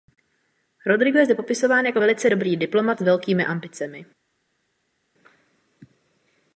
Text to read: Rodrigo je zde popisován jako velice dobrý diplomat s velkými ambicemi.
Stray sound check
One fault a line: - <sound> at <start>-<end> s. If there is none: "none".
none